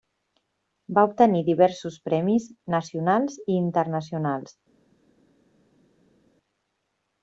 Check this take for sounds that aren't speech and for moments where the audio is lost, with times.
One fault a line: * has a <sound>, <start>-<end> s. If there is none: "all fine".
all fine